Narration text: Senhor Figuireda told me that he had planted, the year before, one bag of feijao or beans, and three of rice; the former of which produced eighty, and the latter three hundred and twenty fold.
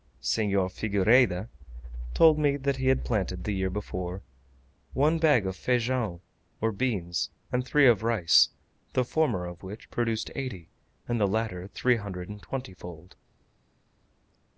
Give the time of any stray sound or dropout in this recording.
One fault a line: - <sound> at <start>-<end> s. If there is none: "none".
none